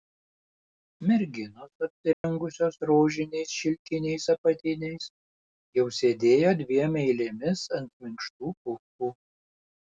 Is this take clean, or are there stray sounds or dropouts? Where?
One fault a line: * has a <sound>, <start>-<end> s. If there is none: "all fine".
* has a dropout, 2.1-2.2 s